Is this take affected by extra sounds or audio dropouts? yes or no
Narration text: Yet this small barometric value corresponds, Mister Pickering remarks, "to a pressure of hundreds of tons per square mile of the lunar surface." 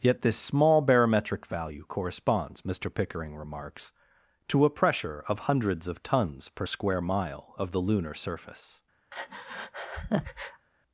yes